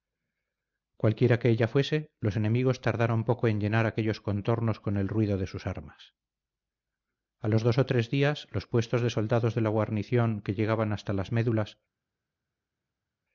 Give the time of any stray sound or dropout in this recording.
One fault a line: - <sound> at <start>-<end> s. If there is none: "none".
none